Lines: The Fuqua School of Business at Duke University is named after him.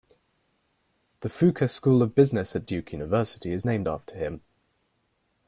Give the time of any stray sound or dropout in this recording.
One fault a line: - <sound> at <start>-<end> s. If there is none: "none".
none